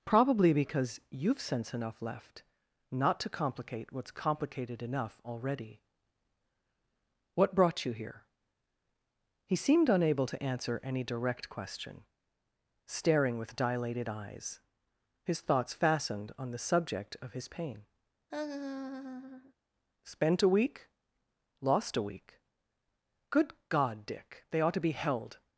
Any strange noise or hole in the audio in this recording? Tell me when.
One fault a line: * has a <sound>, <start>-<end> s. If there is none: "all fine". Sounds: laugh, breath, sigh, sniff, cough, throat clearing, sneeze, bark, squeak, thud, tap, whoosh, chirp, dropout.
* has a laugh, 18.3-19.5 s